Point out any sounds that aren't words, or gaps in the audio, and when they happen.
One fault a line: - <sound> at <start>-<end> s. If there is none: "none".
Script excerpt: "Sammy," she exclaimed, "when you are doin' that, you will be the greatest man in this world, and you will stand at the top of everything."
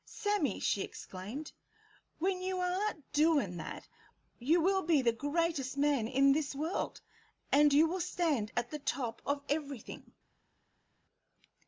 none